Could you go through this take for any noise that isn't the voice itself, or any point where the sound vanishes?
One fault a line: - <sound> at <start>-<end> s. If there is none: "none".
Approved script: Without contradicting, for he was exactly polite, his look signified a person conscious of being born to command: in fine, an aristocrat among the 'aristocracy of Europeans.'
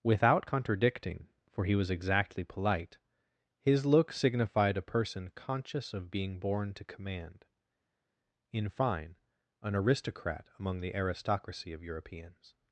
none